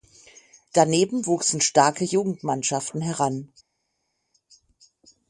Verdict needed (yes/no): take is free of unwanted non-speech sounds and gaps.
yes